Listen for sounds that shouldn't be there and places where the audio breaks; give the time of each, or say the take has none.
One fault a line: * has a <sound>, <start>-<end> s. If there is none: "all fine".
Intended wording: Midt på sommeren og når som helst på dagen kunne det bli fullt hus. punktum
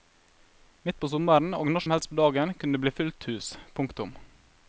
all fine